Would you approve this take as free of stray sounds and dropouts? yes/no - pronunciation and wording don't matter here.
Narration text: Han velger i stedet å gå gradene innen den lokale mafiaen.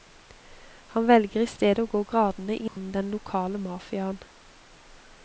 no